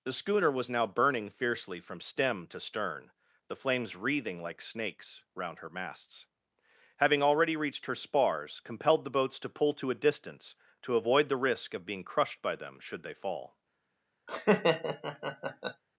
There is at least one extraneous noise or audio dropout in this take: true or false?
true